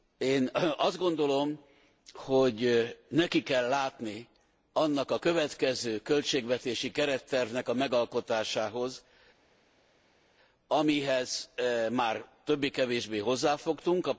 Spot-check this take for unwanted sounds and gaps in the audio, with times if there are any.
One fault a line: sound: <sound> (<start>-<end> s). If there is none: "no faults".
no faults